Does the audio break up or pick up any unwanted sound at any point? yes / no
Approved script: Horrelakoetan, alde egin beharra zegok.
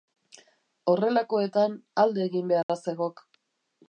yes